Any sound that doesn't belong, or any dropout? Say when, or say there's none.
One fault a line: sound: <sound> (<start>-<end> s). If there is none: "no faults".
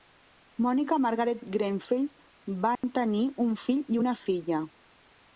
sound: dropout (2.8-2.8 s)